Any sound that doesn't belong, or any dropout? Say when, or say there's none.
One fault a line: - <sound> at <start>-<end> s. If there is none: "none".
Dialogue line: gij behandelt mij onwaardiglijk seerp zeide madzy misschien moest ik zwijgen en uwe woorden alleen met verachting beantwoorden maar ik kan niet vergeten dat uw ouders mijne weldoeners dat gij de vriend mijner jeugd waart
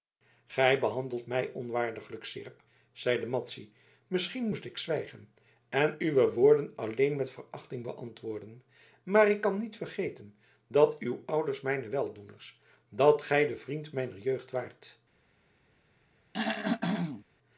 - throat clearing at 16.3-17.2 s